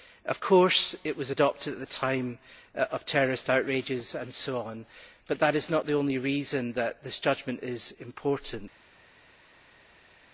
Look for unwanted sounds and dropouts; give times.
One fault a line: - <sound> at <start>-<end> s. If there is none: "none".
none